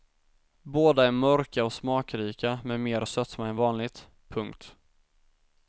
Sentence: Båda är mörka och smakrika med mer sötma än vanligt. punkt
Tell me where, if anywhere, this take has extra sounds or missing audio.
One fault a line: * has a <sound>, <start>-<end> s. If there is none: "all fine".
all fine